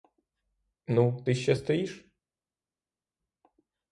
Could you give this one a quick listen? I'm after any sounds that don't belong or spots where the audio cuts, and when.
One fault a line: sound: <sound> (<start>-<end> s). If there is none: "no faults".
no faults